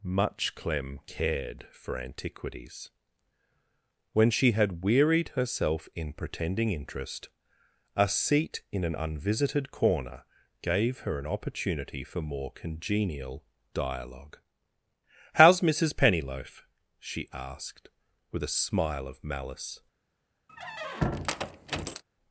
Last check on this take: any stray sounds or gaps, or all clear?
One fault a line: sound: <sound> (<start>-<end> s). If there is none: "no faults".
sound: squeak (20.5-22.0 s)